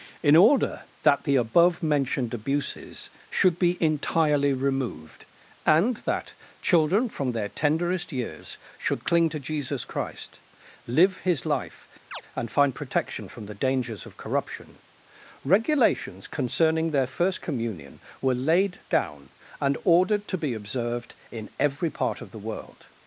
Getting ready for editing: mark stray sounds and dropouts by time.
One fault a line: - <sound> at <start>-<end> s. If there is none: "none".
- chirp at 12.1-12.2 s